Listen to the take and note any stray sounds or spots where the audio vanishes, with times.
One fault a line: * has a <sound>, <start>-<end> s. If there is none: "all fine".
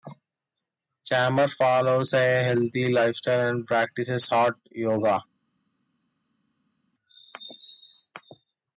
all fine